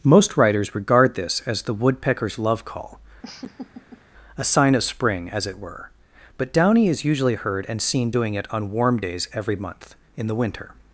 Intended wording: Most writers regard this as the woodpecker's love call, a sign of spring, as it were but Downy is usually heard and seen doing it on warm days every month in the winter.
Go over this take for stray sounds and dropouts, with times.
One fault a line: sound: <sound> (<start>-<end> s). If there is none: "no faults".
sound: laugh (3.2-4.0 s)